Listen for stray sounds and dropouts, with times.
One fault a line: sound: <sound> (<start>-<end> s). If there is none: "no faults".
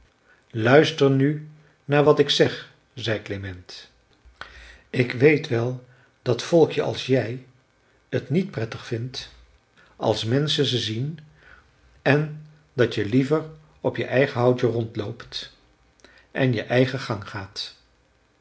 no faults